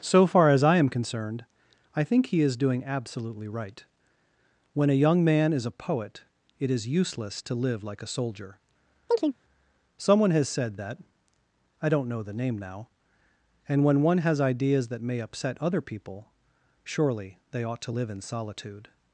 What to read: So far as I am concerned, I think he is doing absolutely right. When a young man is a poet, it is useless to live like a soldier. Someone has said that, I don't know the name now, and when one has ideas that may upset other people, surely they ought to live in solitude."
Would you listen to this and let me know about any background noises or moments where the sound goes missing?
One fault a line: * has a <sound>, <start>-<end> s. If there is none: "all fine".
* has a chirp, 9.1-9.4 s